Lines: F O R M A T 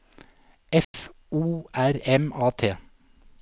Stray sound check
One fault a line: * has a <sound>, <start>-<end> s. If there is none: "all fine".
* has a dropout, 0.8-0.9 s